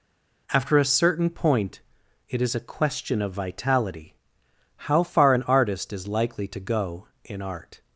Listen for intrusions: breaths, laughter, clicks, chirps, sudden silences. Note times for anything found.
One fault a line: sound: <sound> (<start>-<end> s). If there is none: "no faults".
no faults